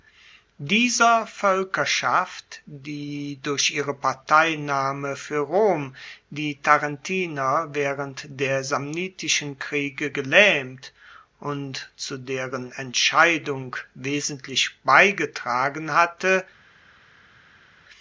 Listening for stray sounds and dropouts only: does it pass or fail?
pass